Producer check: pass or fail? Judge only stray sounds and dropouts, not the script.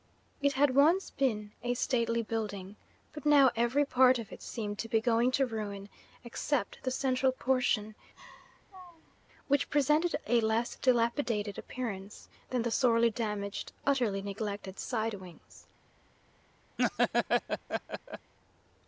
fail